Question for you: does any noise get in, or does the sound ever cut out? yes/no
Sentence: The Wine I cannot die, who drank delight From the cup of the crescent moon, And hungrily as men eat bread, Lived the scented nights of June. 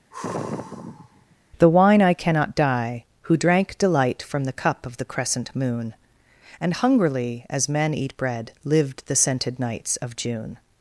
yes